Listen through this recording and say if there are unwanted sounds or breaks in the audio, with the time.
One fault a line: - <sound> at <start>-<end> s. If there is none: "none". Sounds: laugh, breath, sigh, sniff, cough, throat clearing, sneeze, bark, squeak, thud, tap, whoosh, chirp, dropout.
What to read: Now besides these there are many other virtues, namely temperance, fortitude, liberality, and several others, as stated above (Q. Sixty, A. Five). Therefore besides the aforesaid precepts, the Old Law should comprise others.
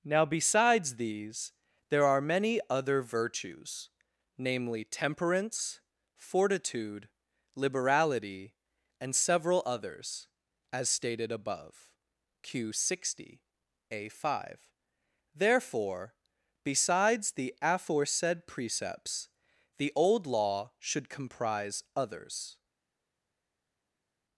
none